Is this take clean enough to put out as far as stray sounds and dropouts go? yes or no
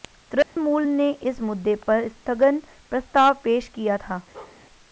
no